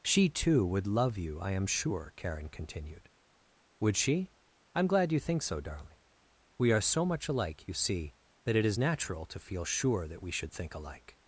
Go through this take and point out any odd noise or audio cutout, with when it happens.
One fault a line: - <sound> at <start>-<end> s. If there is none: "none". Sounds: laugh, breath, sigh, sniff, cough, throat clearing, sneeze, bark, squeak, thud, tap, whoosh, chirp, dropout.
none